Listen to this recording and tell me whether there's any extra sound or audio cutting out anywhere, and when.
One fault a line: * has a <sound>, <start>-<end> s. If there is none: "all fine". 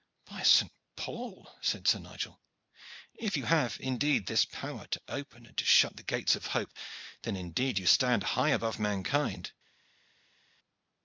all fine